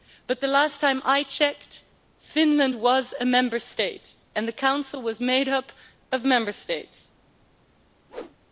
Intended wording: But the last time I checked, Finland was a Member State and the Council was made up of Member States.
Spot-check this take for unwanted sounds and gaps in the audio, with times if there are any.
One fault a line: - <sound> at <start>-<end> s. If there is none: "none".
- whoosh at 8.1-8.4 s